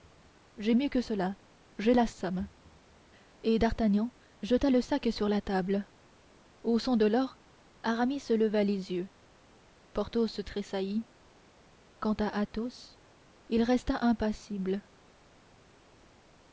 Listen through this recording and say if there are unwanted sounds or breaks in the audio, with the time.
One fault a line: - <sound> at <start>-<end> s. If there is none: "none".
none